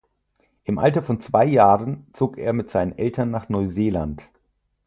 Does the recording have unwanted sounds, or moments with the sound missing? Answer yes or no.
no